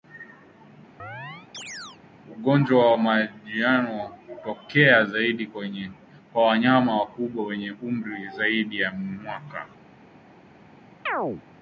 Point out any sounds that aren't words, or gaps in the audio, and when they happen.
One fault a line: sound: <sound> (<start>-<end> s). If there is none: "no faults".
sound: chirp (1.0-2.0 s)
sound: chirp (11.1-11.4 s)